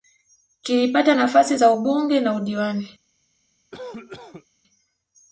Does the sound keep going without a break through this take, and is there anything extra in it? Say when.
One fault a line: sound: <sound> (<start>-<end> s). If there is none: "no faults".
sound: cough (3.7-4.5 s)